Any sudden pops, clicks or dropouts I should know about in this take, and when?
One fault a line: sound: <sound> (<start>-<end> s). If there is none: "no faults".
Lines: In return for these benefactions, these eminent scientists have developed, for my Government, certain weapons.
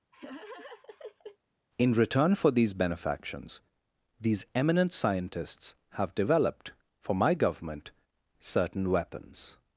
sound: laugh (0.1-1.4 s)